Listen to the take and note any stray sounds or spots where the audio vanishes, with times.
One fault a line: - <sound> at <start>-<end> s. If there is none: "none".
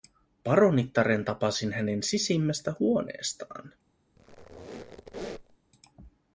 - squeak at 4.2-5.6 s